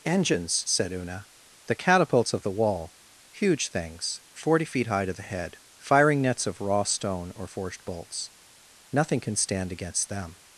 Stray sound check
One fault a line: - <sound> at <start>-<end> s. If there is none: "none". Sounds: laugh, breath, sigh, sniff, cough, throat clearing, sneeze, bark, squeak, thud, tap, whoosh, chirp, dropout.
none